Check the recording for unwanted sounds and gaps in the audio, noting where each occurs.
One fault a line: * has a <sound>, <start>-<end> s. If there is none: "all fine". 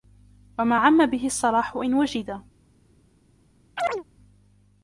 * has a chirp, 3.8-4.0 s